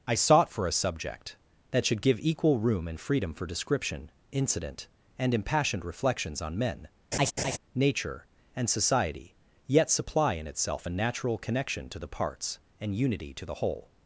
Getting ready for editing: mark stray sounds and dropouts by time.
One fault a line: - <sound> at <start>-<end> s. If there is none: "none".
- laugh at 7.1-7.6 s